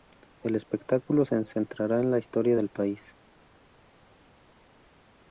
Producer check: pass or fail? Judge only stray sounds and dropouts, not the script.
pass